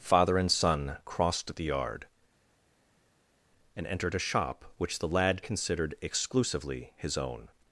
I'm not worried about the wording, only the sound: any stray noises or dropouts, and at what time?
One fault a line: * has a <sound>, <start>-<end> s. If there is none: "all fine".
all fine